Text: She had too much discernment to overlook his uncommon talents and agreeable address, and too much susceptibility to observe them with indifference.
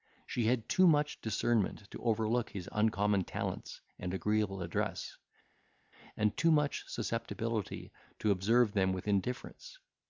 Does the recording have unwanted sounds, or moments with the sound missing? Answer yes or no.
no